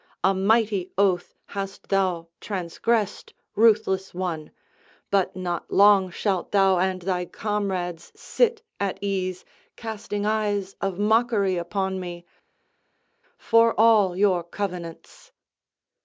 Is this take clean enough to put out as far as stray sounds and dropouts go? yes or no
yes